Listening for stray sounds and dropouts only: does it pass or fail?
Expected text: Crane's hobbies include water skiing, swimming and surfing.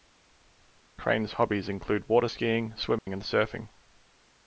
fail